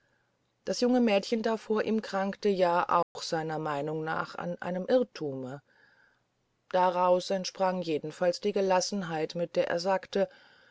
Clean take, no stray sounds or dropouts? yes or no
no